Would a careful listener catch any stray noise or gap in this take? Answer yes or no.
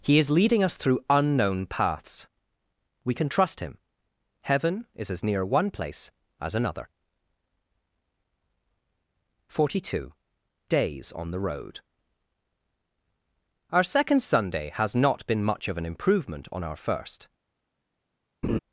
yes